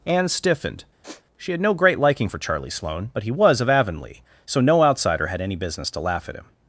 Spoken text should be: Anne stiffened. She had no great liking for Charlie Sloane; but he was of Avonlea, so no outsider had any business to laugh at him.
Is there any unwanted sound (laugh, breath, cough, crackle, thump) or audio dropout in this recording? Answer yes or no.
yes